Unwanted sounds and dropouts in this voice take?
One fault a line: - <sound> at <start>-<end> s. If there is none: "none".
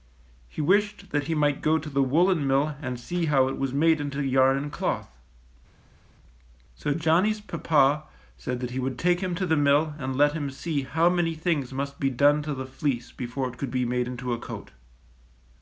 none